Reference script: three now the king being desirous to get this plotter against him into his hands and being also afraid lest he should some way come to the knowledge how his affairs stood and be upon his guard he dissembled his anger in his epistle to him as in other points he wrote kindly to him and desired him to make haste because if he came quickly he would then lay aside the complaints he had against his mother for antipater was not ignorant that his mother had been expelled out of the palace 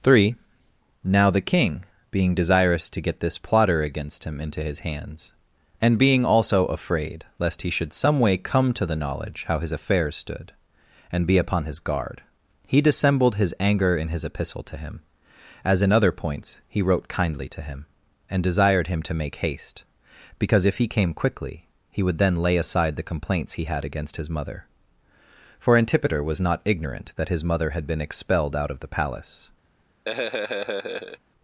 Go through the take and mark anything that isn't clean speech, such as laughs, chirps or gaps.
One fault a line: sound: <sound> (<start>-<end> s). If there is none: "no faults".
sound: laugh (30.1-31.2 s)